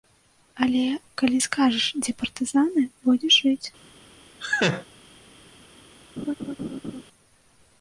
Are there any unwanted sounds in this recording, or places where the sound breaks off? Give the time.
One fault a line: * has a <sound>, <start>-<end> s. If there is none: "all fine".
* has a laugh, 4.4-4.9 s
* has a laugh, 6.2-7.0 s